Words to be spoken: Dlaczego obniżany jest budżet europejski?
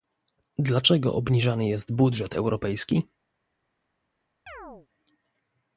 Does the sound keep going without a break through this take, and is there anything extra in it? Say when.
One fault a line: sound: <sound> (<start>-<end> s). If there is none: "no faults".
sound: chirp (4.5-4.9 s)